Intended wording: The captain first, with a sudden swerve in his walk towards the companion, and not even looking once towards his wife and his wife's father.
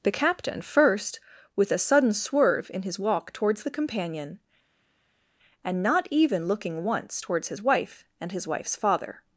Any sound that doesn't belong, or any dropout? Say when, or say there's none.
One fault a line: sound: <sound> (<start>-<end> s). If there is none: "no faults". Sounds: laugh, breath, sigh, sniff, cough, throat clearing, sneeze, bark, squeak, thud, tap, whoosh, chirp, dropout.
no faults